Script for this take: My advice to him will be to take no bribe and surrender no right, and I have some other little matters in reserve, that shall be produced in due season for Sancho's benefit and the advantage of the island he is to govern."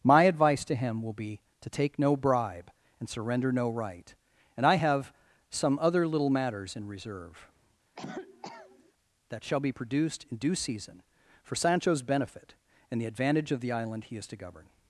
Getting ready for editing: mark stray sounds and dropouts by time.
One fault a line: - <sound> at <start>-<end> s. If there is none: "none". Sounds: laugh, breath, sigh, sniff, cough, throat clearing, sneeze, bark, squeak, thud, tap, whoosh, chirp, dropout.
- cough at 8.0-8.9 s